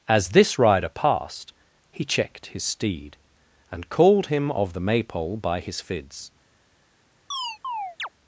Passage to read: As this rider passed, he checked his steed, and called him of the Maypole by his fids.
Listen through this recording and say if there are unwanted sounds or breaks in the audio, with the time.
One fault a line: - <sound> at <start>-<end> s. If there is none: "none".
- chirp at 7.3-8.1 s